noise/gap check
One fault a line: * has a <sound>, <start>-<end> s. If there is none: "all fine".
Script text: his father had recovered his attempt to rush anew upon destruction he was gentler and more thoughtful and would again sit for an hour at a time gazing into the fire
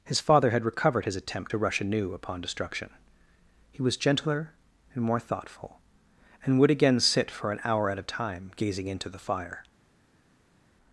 all fine